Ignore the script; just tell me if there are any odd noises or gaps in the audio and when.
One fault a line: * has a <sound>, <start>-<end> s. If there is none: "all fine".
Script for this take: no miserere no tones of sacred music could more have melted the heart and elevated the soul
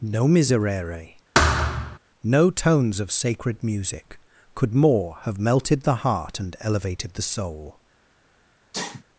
* has a thud, 1.3-2.0 s
* has a sneeze, 8.7-9.0 s